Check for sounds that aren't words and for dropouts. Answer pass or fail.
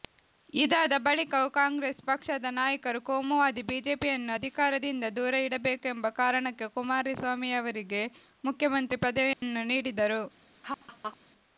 fail